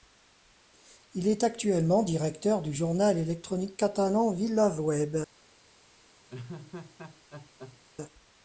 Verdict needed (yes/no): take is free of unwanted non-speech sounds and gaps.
no